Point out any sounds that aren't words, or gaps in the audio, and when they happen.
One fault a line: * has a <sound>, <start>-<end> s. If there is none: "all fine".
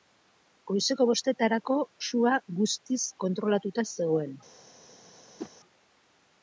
* has a whoosh, 5.4-5.5 s